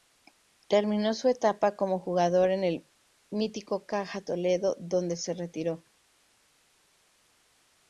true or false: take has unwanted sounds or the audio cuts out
false